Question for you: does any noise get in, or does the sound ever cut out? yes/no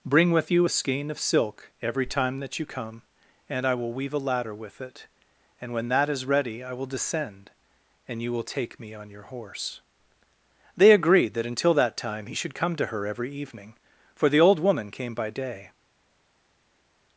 no